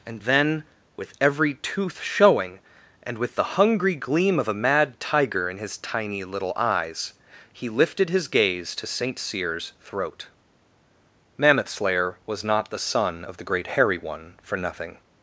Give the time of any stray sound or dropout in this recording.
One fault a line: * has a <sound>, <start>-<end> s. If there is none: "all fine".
all fine